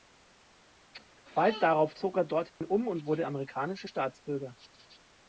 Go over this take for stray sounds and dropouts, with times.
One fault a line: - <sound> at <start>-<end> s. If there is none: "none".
- dropout at 2.5-2.6 s